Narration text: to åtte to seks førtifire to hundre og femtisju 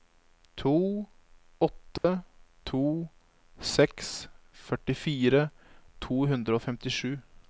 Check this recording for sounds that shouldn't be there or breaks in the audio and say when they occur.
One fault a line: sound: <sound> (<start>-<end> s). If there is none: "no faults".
sound: dropout (2.0-2.0 s)